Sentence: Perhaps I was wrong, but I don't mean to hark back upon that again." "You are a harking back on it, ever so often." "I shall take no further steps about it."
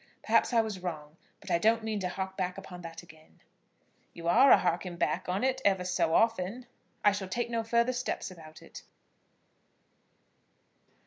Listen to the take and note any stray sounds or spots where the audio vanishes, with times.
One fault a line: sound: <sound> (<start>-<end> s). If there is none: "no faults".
no faults